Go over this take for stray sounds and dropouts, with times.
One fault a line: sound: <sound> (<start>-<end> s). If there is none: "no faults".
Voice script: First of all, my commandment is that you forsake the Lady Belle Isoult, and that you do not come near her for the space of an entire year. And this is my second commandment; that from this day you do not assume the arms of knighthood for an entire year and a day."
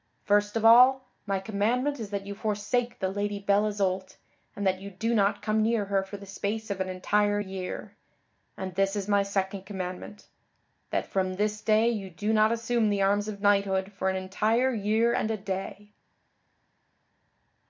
no faults